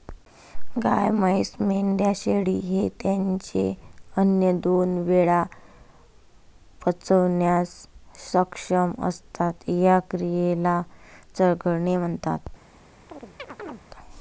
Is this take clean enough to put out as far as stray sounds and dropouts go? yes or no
no